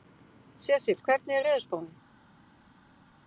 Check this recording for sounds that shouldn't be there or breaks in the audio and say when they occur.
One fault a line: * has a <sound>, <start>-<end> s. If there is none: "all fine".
all fine